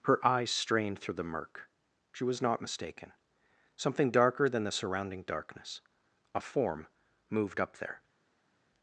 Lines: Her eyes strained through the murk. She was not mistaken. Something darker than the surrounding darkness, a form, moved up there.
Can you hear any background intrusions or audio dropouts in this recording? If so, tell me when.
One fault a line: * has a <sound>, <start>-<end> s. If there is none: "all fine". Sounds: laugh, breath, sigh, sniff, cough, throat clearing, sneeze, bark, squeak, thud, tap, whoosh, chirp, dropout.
all fine